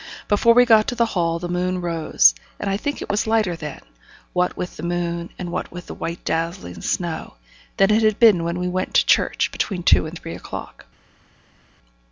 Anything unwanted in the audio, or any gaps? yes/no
no